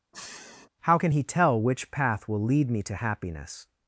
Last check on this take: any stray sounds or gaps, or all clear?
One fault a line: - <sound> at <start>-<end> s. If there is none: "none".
- sniff at 0.1-0.7 s